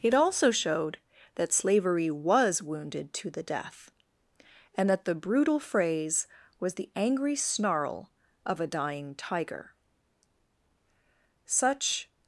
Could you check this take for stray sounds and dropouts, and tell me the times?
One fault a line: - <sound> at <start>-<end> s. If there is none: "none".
none